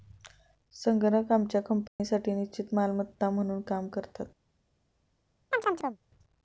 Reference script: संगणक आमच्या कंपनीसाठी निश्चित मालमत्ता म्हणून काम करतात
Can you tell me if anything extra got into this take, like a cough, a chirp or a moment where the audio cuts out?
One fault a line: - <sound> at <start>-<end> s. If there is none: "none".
- dropout at 1.9-2.0 s
- chirp at 5.5-6.0 s